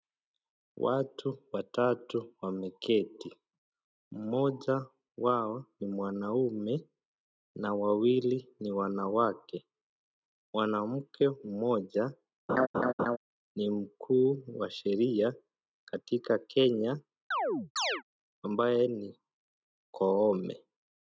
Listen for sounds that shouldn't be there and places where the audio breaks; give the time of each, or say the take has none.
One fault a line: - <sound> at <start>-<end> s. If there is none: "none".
- laugh at 12.5-13.2 s
- chirp at 17.3-18.0 s